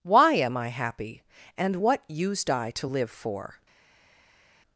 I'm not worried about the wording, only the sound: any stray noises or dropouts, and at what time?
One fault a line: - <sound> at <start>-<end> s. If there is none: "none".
none